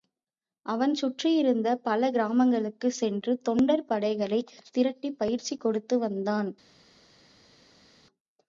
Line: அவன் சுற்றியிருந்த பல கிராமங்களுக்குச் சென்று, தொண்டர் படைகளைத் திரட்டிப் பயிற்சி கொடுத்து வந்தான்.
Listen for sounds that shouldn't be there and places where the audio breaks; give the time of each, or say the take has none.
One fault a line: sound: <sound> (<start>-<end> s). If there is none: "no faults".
no faults